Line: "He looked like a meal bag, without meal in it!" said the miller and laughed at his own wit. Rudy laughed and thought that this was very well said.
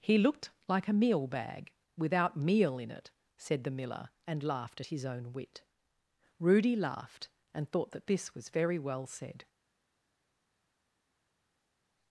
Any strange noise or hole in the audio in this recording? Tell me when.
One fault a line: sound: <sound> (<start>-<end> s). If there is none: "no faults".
no faults